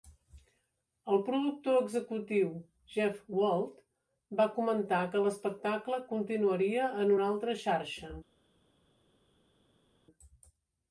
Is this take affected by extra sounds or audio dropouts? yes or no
no